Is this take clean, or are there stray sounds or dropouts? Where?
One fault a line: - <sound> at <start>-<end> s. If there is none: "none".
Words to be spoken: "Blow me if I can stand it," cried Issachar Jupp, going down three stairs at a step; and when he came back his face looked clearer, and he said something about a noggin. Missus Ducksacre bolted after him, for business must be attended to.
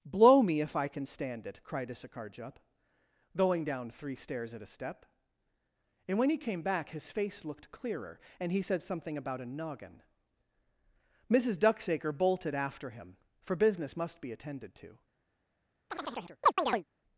- chirp at 15.9-16.8 s